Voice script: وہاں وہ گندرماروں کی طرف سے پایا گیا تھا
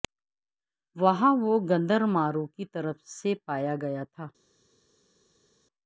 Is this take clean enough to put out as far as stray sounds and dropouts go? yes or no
yes